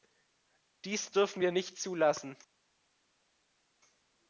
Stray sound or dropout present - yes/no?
no